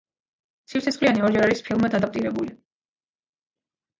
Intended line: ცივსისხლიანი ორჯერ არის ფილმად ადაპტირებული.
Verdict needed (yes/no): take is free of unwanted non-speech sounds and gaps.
yes